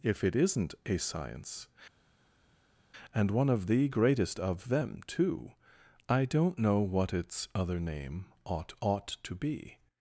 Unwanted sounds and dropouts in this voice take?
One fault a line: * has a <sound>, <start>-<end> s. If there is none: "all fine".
all fine